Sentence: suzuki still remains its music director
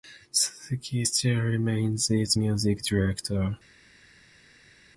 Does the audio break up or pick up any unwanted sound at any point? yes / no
no